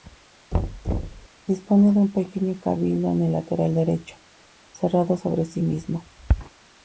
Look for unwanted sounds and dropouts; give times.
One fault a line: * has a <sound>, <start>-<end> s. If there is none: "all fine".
* has a thud, 0.5-1.3 s